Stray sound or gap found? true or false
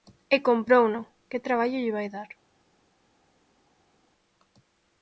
false